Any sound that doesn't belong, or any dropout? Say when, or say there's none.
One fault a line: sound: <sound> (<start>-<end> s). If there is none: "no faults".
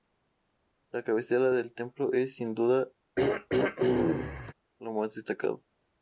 sound: throat clearing (3.2-4.5 s)